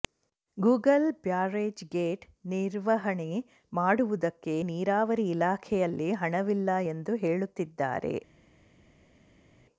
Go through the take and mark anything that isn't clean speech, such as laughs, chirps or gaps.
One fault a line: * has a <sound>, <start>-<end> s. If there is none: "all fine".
all fine